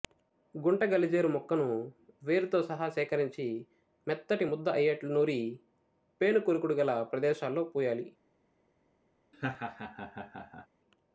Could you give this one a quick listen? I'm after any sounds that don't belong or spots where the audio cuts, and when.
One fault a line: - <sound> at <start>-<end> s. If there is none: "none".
- laugh at 9.3-10.7 s